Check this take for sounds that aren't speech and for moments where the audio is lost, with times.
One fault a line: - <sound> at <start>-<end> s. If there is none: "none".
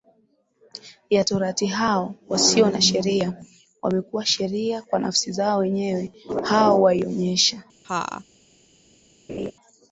- laugh at 7.8-8.2 s
- laugh at 9.3-9.5 s